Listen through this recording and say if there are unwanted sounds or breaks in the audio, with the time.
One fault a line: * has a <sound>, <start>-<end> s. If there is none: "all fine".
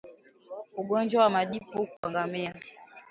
* has a dropout, 2.0-2.0 s